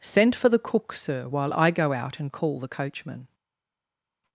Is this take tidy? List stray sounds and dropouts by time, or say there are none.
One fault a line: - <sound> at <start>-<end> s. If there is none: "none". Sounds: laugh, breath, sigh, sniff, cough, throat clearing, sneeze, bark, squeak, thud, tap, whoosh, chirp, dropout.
none